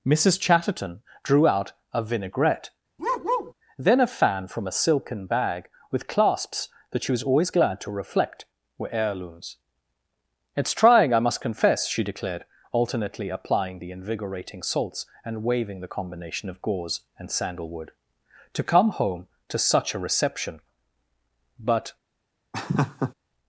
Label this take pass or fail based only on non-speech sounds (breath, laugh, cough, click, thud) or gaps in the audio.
fail